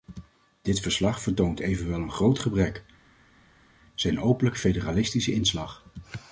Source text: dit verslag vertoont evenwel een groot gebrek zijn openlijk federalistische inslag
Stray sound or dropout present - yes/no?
no